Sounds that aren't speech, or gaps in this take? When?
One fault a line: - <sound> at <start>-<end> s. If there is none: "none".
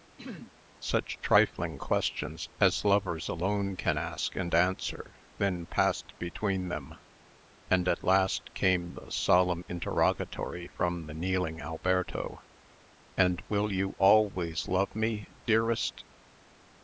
- throat clearing at 0.2-0.6 s